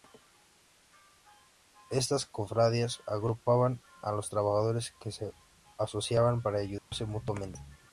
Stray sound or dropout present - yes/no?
yes